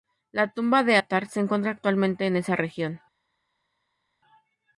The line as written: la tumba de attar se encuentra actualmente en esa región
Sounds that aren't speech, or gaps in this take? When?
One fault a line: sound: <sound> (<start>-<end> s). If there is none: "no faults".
no faults